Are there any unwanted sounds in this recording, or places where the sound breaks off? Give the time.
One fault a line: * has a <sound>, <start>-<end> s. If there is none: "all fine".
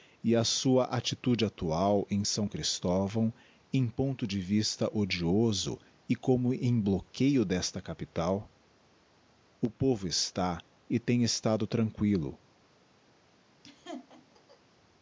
* has a laugh, 13.6-14.6 s